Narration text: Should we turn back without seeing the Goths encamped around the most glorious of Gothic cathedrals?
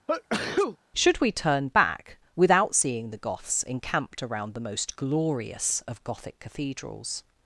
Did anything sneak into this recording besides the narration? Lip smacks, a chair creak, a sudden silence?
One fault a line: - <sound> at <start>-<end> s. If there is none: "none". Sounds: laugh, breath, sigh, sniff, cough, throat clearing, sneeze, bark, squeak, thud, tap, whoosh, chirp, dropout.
- sneeze at 0.1-0.8 s